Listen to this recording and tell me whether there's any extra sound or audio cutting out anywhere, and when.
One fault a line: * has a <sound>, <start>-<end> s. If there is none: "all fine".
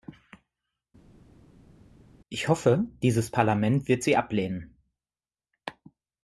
all fine